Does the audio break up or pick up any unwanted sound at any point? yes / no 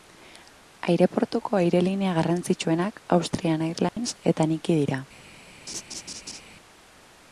yes